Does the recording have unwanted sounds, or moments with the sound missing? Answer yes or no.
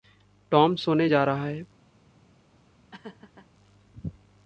yes